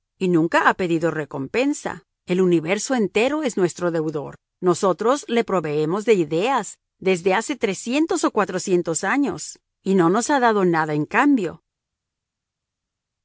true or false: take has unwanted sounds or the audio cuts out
false